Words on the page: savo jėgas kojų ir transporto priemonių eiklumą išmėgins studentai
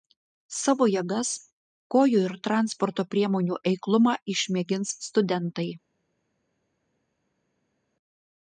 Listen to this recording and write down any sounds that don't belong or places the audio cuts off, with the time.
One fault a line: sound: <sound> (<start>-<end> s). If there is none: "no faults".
no faults